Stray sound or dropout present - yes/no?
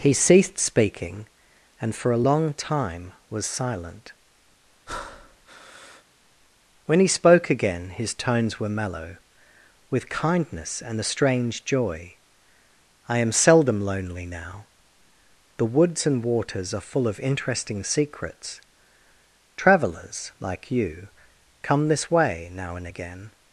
yes